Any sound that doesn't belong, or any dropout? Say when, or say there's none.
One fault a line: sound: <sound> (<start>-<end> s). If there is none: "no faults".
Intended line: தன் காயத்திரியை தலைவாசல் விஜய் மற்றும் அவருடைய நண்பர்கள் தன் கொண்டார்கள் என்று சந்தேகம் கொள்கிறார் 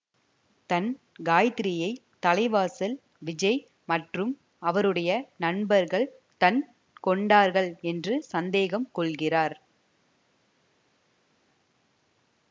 no faults